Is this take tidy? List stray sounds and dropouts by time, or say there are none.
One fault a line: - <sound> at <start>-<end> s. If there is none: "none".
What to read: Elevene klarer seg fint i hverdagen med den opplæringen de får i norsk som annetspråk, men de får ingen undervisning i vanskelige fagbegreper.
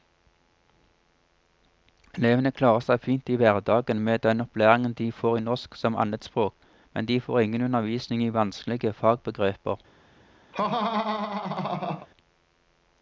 - laugh at 10.5-12.1 s